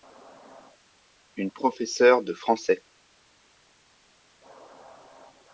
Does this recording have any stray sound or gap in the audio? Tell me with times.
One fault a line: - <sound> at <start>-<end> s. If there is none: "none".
none